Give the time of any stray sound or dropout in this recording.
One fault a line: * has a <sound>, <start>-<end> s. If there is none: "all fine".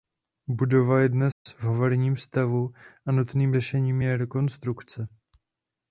* has a dropout, 1.3-1.5 s